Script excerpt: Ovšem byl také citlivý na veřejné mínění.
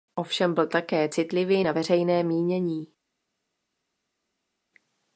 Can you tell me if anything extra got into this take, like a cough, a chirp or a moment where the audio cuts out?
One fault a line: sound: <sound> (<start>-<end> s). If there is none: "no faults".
no faults